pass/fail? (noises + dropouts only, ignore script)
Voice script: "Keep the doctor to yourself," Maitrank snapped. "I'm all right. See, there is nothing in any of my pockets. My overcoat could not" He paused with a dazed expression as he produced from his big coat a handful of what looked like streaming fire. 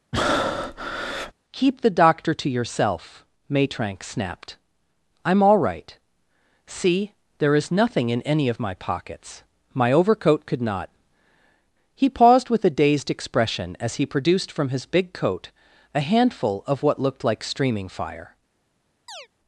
fail